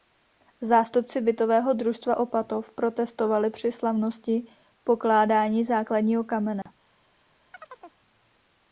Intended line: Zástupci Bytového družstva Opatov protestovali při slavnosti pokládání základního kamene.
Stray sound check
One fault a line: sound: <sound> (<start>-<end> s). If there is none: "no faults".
sound: dropout (6.6-6.7 s)
sound: chirp (7.5-8.0 s)